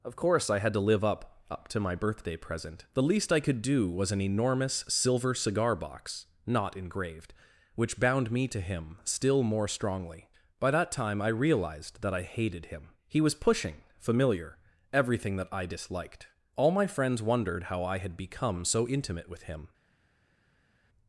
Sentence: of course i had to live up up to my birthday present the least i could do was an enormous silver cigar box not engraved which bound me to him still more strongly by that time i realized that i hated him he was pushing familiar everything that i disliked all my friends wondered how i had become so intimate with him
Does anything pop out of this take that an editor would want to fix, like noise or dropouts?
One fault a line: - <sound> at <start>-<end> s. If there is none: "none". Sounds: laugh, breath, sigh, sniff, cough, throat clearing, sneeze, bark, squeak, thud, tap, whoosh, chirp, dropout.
none